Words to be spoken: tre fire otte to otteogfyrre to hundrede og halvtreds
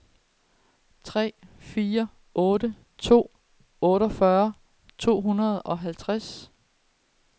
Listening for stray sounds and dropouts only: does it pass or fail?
pass